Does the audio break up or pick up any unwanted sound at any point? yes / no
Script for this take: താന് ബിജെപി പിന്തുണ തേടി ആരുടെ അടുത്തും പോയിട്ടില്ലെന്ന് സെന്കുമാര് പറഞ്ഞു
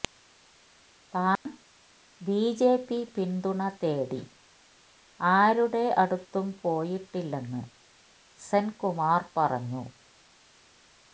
yes